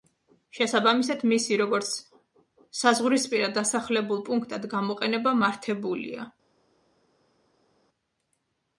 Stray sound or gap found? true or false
false